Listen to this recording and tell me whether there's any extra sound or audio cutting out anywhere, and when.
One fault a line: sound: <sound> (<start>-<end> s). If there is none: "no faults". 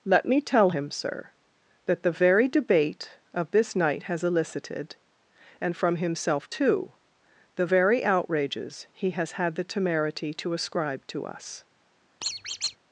sound: squeak (12.2-12.8 s)